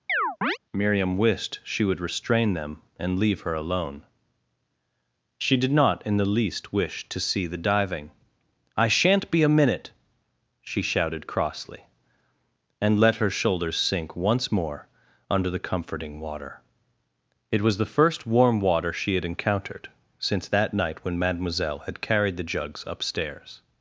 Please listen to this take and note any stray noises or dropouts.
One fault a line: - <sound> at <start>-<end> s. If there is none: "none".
- chirp at 0.1-0.6 s